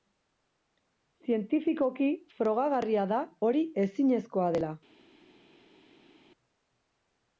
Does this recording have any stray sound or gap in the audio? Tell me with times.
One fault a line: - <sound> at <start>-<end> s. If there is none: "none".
none